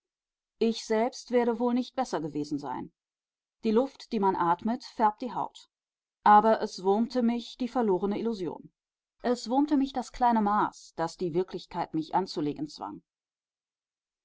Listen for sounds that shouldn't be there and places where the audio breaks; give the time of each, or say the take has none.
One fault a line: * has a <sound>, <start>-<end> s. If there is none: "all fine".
all fine